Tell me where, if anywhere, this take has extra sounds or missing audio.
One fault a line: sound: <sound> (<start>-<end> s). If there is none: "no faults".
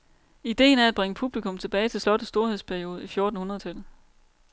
no faults